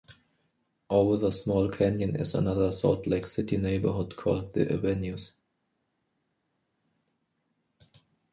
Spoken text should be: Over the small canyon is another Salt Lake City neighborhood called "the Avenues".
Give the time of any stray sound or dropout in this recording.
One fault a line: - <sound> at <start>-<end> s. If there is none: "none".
none